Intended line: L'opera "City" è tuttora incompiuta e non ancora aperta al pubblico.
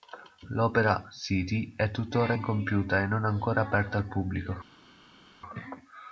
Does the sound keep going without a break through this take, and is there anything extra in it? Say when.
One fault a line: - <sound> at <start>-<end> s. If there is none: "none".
none